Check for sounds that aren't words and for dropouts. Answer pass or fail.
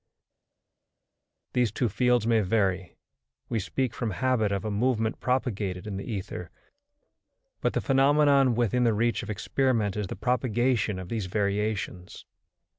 pass